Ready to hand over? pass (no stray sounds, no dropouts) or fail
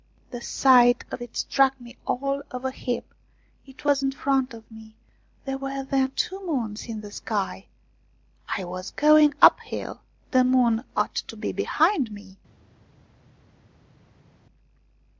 pass